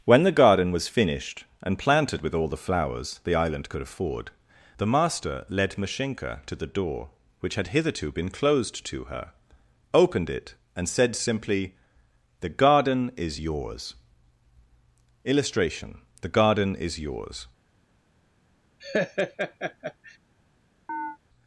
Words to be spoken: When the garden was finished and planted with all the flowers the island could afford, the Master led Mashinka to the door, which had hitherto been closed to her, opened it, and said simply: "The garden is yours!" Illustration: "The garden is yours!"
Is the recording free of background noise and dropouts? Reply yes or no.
no